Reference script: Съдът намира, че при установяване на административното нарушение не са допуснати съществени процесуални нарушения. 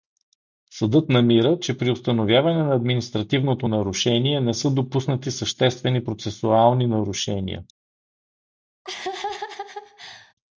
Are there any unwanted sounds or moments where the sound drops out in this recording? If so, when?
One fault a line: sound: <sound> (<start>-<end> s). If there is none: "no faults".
sound: laugh (8.8-10.3 s)